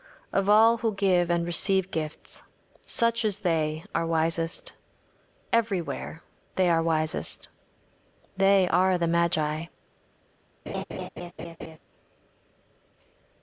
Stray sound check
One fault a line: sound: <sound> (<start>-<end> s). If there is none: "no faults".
sound: laugh (10.7-11.8 s)